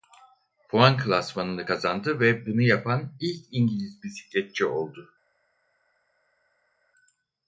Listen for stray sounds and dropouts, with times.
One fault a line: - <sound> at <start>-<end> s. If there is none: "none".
none